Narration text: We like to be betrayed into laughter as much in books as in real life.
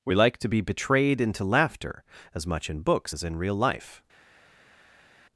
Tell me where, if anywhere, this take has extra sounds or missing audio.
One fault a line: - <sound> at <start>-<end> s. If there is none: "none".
none